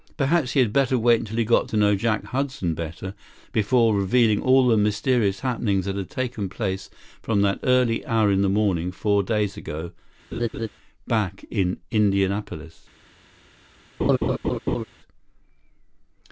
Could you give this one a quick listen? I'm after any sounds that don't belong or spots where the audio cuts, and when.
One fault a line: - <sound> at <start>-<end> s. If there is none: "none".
- laugh at 10.3-10.7 s
- laugh at 14.0-14.8 s